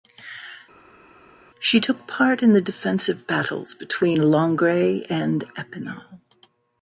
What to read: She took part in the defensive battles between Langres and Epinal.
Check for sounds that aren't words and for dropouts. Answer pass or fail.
pass